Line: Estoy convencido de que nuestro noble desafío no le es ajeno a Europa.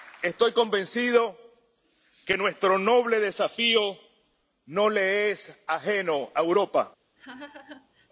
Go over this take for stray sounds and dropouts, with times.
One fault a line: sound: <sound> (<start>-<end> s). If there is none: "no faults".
sound: laugh (7.2-8.1 s)